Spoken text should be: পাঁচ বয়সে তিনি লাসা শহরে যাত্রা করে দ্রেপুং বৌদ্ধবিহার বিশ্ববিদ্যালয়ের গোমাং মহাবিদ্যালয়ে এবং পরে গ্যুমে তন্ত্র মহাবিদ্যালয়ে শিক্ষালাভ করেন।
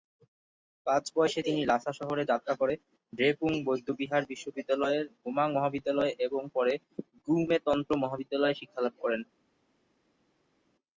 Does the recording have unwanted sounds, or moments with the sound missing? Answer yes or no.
no